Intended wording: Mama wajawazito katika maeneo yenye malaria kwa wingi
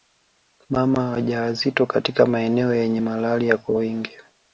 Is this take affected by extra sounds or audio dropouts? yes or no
no